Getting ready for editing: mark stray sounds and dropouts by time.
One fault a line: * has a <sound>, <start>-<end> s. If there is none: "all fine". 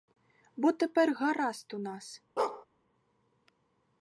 * has a bark, 2.4-2.7 s